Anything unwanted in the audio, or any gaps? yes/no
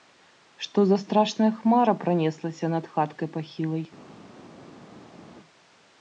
no